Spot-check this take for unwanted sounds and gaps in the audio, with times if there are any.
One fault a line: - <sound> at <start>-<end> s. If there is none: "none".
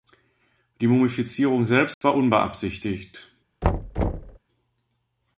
- dropout at 1.9-2.0 s
- thud at 3.6-4.4 s